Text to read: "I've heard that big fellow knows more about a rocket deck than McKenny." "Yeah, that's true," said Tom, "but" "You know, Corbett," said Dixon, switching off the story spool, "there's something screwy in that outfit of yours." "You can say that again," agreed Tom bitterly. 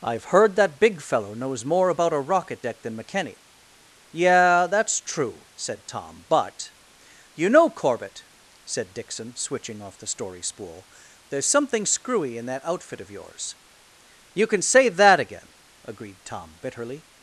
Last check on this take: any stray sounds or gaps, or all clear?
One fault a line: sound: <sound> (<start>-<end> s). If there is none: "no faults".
no faults